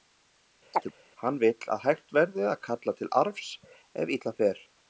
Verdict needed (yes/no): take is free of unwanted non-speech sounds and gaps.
no